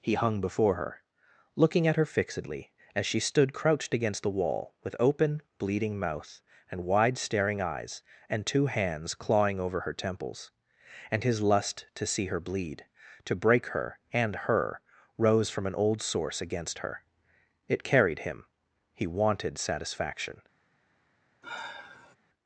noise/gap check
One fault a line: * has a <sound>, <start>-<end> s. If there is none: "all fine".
* has a sigh, 21.4-22.2 s